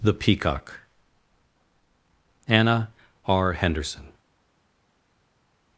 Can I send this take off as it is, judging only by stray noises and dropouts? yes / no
yes